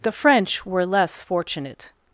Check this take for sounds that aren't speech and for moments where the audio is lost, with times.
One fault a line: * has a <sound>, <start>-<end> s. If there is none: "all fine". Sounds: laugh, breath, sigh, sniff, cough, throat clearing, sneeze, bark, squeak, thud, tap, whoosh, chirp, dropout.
all fine